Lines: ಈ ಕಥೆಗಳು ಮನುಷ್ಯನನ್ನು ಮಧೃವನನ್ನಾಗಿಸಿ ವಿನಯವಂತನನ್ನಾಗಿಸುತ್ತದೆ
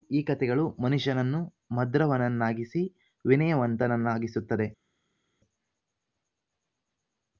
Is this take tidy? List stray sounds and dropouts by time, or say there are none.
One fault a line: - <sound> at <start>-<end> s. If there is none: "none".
none